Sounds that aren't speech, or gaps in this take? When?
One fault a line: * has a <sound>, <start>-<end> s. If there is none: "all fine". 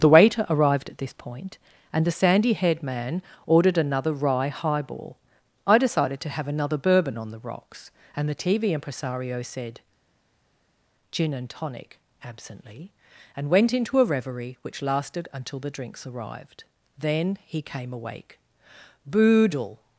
all fine